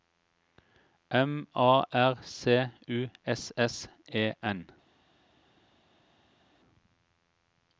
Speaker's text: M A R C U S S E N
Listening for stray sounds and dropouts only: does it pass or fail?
pass